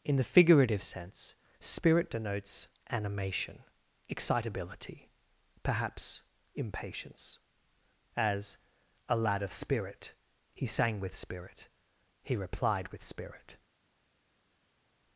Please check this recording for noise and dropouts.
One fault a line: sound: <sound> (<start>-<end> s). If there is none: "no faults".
no faults